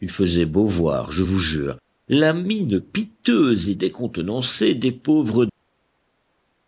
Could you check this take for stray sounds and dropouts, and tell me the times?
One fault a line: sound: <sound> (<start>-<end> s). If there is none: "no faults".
no faults